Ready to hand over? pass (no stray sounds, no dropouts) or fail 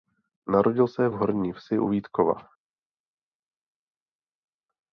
pass